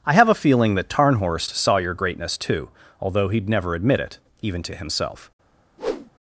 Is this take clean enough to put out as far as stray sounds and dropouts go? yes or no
no